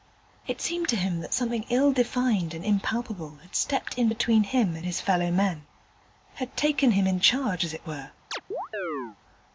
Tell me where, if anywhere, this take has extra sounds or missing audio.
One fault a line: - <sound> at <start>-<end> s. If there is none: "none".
- chirp at 8.3-9.2 s